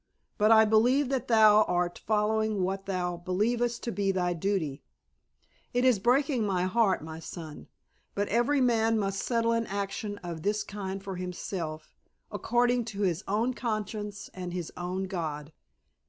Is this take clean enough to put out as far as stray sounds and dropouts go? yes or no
yes